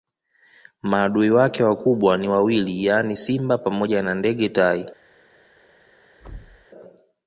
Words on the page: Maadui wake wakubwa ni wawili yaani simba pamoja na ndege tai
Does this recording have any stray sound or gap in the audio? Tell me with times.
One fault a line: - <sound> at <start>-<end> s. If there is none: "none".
- thud at 6.2-6.7 s